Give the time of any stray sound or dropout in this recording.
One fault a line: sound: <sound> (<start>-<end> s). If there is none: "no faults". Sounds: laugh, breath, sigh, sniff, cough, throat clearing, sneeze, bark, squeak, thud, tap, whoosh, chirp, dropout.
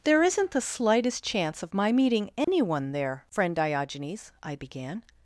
sound: dropout (2.4-2.5 s)